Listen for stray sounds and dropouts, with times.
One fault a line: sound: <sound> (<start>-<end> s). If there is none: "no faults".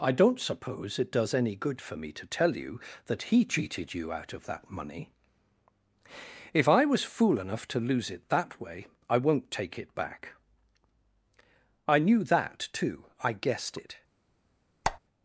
sound: squeak (14.8-15.0 s)